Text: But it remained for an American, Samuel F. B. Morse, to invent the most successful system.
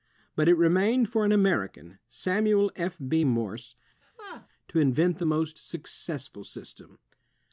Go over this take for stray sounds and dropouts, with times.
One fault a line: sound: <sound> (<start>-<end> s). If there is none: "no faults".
sound: laugh (4.0-4.5 s)